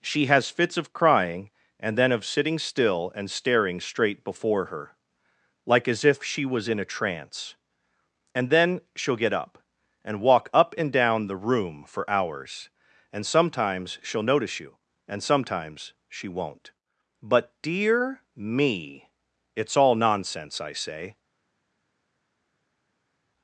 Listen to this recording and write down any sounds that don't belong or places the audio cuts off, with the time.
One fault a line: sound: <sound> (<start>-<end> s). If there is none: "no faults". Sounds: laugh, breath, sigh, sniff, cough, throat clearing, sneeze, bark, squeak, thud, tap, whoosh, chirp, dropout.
no faults